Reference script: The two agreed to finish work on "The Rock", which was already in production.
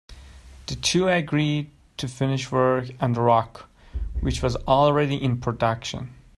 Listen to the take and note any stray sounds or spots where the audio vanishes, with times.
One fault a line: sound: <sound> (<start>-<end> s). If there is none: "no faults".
no faults